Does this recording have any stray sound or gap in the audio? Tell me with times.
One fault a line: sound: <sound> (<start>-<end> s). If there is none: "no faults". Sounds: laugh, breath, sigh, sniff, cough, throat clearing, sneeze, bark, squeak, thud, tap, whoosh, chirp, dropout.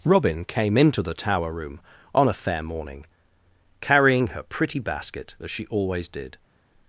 no faults